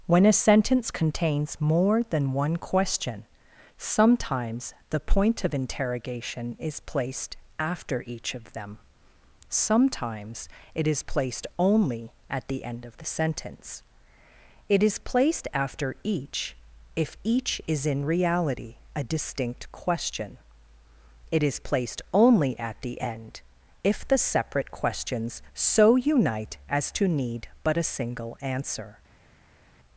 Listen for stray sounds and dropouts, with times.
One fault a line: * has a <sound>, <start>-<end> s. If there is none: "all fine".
all fine